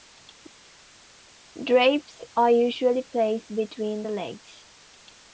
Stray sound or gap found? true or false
false